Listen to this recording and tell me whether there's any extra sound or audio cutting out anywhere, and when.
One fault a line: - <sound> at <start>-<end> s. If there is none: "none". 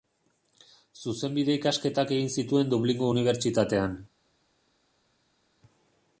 none